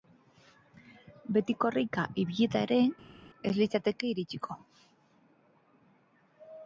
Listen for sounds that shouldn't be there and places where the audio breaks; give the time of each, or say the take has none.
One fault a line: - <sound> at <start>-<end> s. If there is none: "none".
none